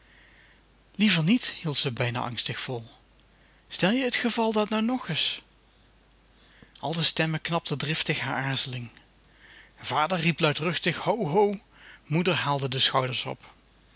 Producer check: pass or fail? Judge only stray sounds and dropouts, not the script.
pass